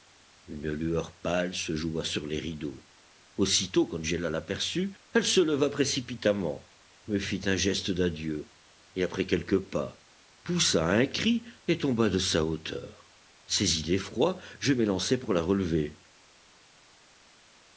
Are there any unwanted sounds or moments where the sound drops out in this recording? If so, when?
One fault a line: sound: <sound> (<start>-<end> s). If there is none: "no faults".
no faults